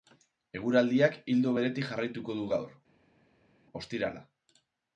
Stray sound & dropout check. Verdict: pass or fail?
pass